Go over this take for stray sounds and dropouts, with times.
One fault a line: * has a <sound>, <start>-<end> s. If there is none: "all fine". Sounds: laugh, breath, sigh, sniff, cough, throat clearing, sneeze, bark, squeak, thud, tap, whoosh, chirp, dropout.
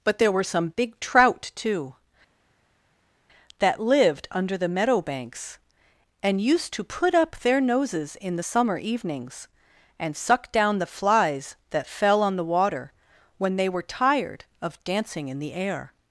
all fine